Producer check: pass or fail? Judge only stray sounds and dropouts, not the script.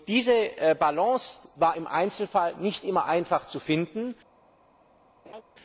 fail